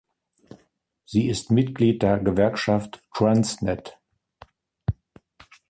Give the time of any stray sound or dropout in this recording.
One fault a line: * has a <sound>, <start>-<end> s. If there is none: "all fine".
all fine